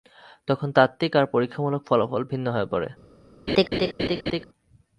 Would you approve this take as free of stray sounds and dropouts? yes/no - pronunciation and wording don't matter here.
no